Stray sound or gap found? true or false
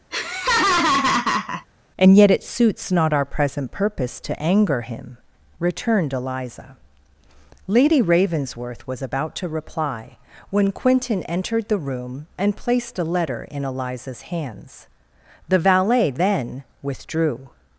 true